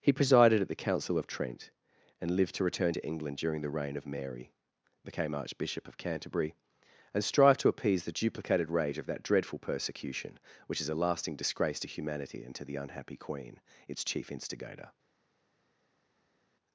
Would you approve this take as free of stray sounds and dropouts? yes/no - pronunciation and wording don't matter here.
yes